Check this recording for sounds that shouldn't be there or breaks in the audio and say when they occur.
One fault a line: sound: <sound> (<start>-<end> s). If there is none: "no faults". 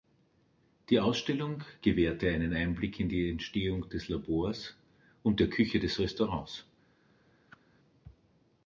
sound: whoosh (7.5-7.6 s)